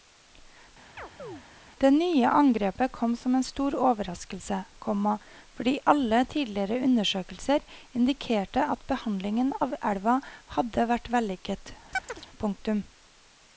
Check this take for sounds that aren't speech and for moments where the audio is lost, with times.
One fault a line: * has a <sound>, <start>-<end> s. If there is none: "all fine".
* has a chirp, 1.0-1.4 s
* has a chirp, 11.9-12.3 s